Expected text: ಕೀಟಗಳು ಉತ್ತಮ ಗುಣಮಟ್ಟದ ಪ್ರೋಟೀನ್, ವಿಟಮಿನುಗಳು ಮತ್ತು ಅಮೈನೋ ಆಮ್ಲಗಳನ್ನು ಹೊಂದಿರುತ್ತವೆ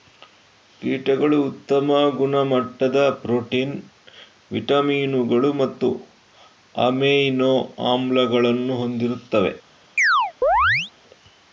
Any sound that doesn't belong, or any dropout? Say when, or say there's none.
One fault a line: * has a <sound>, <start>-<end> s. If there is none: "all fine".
* has a chirp, 10.0-10.9 s